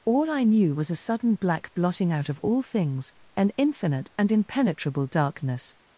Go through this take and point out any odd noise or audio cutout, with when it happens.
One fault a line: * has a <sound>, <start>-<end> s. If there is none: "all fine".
all fine